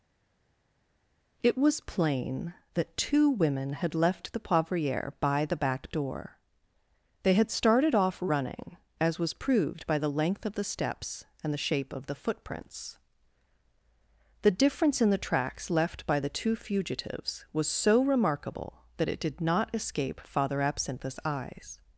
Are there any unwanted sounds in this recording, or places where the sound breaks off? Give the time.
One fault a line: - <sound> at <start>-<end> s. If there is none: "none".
none